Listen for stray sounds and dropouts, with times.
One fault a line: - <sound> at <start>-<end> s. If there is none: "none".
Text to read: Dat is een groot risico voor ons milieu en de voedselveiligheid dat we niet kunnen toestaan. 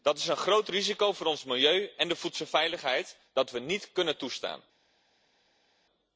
none